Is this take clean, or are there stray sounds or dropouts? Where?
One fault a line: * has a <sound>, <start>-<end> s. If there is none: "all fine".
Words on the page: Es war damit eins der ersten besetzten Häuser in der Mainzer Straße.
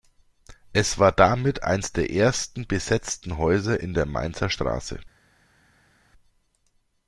all fine